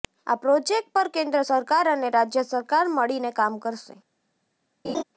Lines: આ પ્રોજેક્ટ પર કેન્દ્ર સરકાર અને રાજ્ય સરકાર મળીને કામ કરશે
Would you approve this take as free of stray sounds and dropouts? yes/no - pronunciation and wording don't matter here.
no